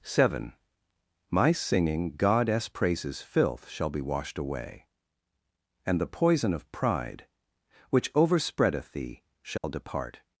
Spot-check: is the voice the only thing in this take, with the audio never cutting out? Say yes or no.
no